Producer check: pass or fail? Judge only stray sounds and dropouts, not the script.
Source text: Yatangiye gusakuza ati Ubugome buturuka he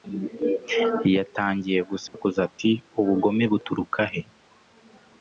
fail